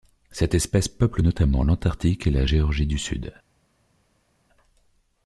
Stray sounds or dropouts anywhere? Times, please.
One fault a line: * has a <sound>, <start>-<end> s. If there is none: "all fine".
all fine